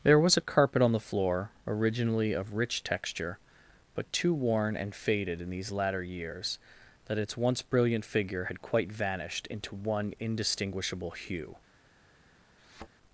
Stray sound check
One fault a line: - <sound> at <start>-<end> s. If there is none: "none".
- thud at 12.6-12.9 s